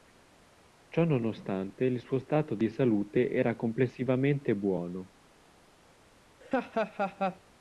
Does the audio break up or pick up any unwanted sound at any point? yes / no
yes